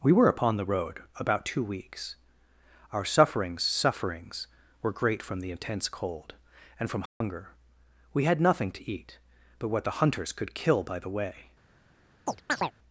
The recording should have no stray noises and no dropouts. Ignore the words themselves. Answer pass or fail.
fail